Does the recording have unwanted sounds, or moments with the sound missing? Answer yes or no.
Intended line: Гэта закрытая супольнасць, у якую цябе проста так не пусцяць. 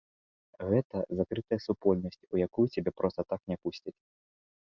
no